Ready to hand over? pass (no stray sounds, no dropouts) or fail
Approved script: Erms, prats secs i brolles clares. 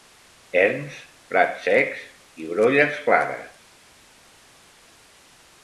pass